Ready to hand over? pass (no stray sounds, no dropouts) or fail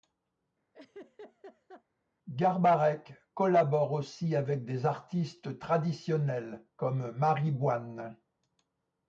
fail